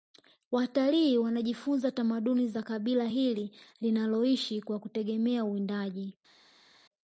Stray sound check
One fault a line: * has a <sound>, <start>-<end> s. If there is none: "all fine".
all fine